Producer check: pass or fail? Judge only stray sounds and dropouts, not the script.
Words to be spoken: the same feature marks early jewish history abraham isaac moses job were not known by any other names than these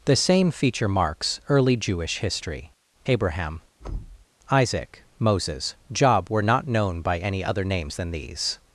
fail